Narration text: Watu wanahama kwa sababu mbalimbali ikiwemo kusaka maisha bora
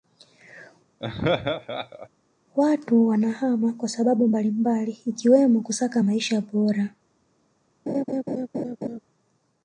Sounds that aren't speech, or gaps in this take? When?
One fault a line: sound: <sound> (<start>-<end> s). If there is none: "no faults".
sound: laugh (1.0-2.1 s)
sound: laugh (7.9-9.0 s)